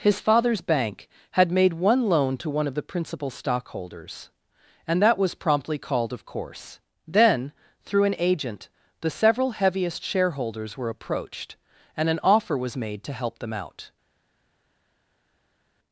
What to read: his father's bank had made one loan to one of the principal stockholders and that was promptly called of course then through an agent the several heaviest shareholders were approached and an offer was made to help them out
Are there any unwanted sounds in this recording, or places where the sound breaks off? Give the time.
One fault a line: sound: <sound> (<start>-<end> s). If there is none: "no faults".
no faults